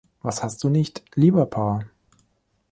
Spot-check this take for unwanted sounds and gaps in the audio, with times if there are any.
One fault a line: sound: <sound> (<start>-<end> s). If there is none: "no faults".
no faults